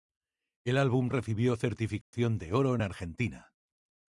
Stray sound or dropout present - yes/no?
yes